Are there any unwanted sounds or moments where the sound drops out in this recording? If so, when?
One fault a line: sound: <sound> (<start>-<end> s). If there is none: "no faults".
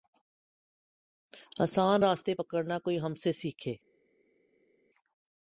no faults